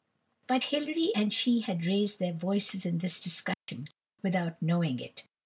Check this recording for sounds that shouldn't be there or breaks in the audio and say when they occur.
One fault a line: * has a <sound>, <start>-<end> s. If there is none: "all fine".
* has a dropout, 3.5-3.7 s